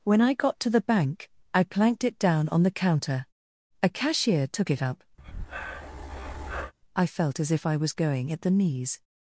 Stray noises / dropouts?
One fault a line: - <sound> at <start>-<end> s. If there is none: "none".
- breath at 5.2-6.7 s